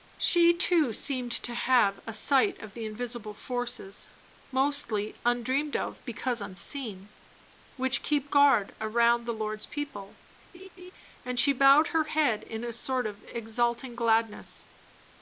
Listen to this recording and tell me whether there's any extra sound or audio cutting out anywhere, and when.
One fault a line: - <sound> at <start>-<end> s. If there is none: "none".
- laugh at 10.5-10.9 s